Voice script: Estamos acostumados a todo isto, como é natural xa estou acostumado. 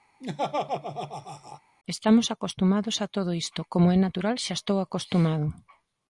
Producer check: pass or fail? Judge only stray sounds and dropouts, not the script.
fail